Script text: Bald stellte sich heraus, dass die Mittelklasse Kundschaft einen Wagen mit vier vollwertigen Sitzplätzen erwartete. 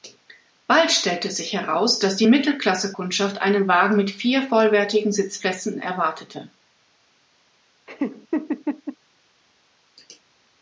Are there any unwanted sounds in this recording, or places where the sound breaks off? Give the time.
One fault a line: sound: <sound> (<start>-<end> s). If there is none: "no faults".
sound: laugh (7.9-9.0 s)